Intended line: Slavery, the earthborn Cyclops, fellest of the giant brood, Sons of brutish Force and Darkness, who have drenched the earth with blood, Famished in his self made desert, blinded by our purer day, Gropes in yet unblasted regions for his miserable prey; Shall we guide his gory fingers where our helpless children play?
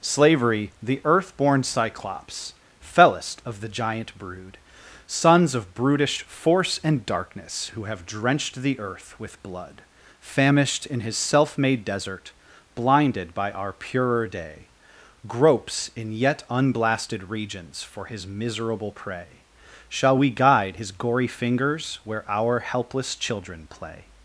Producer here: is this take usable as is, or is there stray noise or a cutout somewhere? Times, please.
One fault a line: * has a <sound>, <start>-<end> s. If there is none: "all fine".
all fine